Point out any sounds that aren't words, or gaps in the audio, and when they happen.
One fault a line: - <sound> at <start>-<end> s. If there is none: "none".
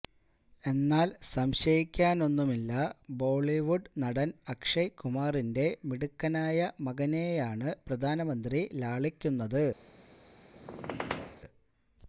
- squeak at 10.5-11.4 s